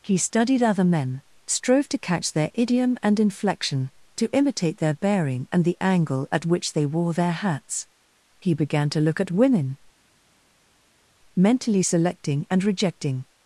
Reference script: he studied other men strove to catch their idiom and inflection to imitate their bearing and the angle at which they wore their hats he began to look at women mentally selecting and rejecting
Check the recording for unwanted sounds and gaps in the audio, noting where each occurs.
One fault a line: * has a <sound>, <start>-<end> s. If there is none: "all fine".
all fine